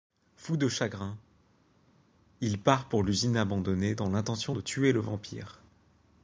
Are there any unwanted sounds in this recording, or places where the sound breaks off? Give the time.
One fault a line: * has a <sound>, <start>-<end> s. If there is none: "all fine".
all fine